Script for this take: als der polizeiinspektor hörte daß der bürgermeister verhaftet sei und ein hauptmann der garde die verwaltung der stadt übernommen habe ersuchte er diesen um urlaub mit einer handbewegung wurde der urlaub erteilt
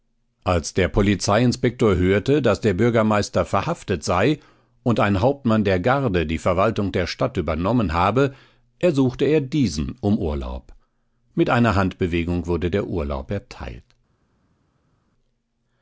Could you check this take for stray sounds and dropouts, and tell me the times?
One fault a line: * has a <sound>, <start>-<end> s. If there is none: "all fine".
all fine